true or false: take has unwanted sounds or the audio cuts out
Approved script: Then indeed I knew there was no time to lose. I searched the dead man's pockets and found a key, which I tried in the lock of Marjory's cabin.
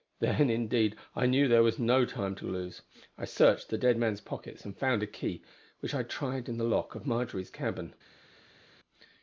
false